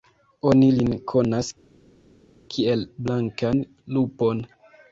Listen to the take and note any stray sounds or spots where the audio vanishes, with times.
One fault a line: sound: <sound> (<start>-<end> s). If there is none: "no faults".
no faults